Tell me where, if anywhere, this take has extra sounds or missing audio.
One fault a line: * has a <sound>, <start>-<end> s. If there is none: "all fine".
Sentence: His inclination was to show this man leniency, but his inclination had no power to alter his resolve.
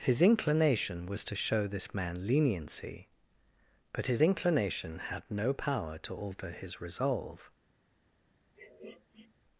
* has a sniff, 8.5-9.3 s